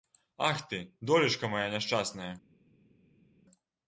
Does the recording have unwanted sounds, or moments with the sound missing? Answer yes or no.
no